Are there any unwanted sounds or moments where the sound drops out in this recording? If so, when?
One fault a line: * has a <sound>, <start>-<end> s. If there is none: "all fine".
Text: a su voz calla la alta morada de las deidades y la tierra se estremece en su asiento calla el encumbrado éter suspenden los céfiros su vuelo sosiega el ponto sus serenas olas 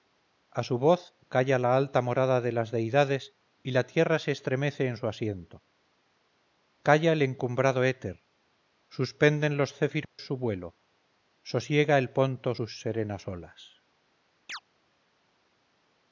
* has a dropout, 10.0-10.2 s
* has a chirp, 14.5-14.6 s